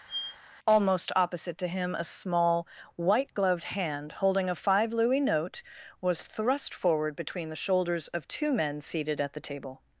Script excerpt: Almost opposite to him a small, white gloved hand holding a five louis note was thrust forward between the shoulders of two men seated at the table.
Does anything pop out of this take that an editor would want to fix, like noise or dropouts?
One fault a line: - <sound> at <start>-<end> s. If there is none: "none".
- squeak at 0.1-0.4 s